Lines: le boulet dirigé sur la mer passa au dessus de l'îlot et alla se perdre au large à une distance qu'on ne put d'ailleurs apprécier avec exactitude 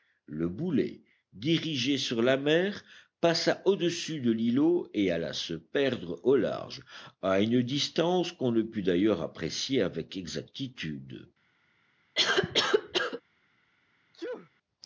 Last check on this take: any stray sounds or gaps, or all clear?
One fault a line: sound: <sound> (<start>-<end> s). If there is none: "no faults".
sound: cough (12.1-13.2 s)
sound: sneeze (14.1-14.5 s)